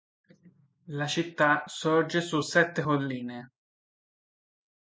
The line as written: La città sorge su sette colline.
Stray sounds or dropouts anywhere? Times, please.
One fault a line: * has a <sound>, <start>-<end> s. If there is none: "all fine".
all fine